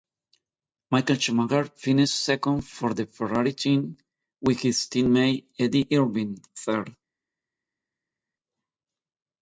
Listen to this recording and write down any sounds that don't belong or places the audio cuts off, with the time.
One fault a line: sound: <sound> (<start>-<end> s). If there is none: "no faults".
no faults